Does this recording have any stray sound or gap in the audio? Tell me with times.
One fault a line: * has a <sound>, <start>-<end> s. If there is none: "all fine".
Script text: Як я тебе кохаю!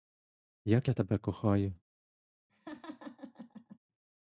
* has a laugh, 2.5-3.8 s